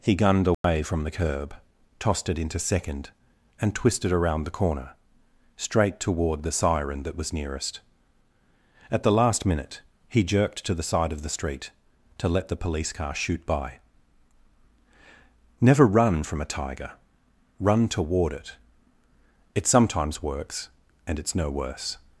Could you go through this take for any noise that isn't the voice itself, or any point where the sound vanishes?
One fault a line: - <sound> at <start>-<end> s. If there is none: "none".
- dropout at 0.5-0.6 s